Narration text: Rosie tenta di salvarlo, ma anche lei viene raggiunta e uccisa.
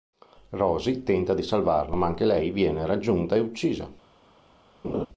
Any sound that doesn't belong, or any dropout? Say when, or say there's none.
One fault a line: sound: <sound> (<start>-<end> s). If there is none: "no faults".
sound: laugh (4.8-5.1 s)